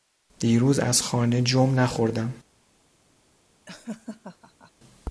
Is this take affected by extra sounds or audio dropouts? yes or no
yes